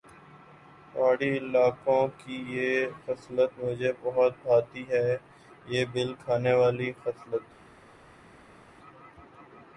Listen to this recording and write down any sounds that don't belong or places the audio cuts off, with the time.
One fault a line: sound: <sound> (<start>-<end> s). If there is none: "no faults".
no faults